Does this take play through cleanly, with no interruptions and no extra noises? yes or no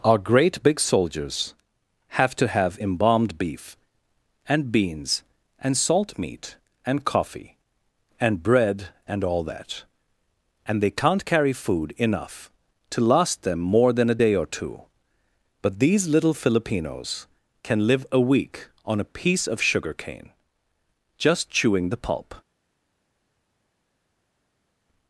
yes